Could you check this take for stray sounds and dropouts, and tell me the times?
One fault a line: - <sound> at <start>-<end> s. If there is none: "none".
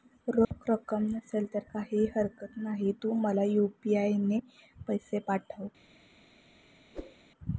- dropout at 0.4-0.5 s
- whoosh at 6.9-7.2 s